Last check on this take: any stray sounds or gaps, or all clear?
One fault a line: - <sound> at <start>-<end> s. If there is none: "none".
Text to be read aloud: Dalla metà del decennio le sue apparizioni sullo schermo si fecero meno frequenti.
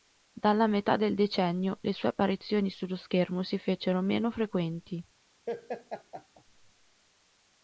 - laugh at 5.5-6.4 s